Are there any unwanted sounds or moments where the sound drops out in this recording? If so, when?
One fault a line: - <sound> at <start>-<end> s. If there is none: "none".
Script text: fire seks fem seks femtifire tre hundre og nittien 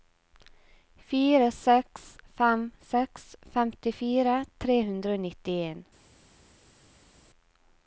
none